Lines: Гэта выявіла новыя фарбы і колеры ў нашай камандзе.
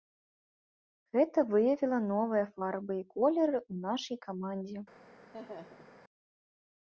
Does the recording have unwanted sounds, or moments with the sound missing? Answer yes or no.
yes